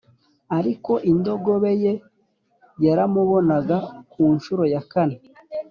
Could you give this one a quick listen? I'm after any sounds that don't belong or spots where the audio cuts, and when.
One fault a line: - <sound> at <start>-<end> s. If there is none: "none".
none